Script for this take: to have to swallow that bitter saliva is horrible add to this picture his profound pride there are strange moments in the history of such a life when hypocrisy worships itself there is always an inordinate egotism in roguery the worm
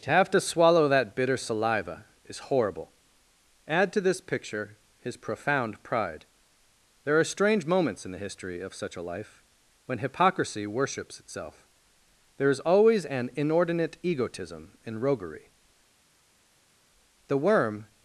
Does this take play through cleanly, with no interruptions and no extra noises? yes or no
yes